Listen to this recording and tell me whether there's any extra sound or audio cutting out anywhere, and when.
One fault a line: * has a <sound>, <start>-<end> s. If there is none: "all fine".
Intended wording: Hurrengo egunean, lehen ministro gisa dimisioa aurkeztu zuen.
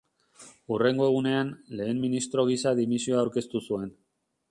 all fine